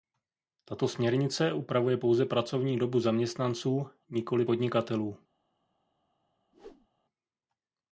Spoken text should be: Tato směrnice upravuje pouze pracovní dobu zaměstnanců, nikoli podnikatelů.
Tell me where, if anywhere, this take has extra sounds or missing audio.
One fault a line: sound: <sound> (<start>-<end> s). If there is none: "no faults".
sound: whoosh (6.5-6.9 s)